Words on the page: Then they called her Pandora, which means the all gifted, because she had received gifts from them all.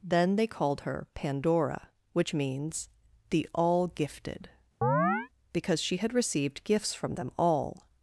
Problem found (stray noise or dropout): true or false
true